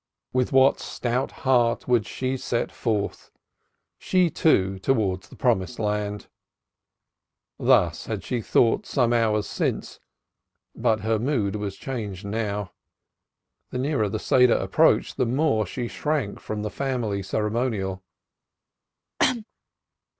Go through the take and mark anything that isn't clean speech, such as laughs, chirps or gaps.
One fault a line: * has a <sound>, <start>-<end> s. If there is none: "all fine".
* has a cough, 19.2-19.4 s